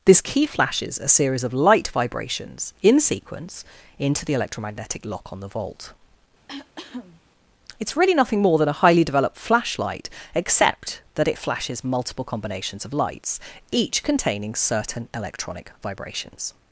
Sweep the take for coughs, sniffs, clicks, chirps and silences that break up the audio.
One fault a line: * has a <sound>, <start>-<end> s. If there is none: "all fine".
* has a cough, 6.5-7.2 s